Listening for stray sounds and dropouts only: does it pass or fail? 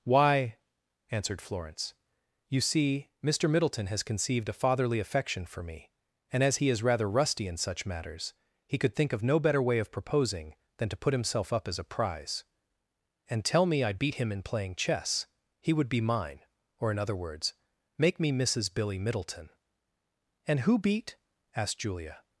pass